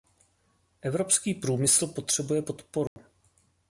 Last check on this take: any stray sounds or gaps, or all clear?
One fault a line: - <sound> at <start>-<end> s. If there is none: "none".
- dropout at 2.9-3.0 s